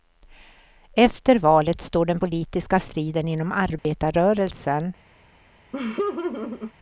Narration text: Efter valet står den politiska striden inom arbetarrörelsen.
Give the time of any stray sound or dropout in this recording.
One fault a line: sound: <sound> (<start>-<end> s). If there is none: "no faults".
sound: dropout (3.8-3.8 s)
sound: laugh (5.7-6.7 s)